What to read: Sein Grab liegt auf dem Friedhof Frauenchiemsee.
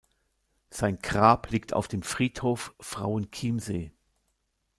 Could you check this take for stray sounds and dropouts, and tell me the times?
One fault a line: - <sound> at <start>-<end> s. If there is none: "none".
none